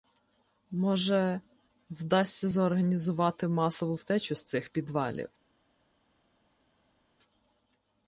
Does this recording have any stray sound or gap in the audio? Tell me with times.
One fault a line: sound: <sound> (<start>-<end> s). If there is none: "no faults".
no faults